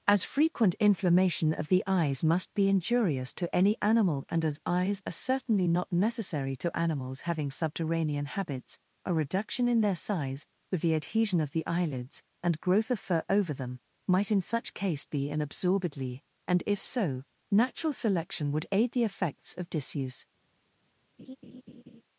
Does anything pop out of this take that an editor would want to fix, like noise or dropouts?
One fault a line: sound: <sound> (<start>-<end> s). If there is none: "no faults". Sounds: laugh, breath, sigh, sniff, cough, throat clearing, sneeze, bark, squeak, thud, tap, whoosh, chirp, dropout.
sound: laugh (21.2-22.0 s)